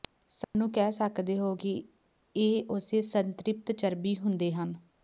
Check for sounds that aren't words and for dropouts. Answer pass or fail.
fail